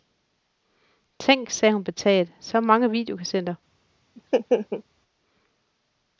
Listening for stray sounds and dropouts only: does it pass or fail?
fail